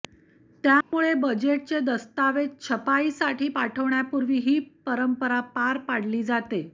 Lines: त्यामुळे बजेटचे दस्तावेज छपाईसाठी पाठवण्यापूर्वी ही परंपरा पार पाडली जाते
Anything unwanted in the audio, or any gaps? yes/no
yes